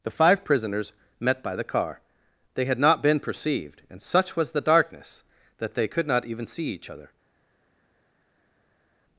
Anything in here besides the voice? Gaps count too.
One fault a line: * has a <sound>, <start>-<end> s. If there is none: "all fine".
all fine